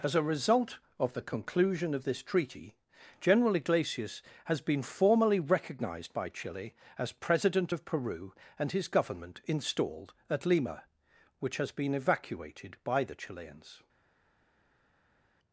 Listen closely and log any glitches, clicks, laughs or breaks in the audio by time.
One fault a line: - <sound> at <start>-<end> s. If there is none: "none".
none